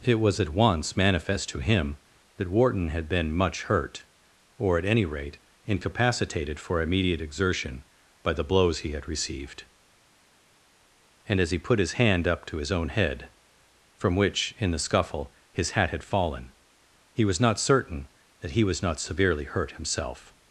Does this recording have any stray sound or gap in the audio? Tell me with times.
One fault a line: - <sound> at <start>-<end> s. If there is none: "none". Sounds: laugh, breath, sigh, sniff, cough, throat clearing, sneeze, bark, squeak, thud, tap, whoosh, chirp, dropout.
none